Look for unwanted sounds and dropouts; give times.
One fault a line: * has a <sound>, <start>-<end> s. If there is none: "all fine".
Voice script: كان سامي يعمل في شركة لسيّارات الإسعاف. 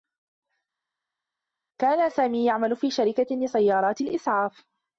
all fine